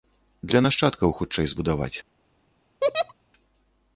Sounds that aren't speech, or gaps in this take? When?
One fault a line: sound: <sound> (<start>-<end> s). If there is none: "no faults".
sound: laugh (2.8-3.1 s)